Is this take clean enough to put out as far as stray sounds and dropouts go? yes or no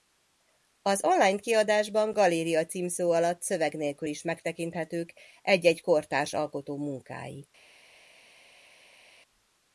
yes